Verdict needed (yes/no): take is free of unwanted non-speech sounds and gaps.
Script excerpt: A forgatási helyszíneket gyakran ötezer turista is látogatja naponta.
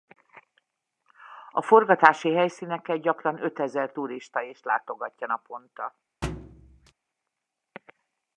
no